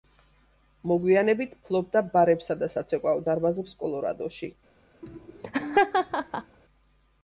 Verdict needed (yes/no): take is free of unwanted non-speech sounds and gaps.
no